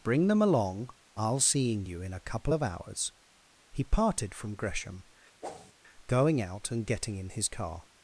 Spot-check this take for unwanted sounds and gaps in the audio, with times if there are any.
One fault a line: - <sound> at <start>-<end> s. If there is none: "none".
- whoosh at 5.4-5.7 s